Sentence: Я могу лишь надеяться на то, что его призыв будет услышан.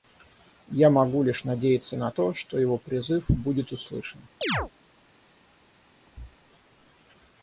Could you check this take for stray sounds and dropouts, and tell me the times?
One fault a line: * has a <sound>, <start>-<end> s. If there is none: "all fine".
* has a chirp, 4.4-4.7 s
* has a thud, 6.1-6.4 s